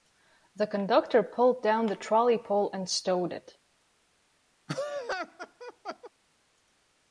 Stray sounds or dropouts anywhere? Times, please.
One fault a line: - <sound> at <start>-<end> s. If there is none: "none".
- laugh at 4.7-6.1 s